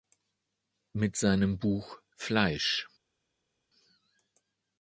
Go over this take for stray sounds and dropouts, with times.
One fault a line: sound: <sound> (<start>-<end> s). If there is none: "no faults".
no faults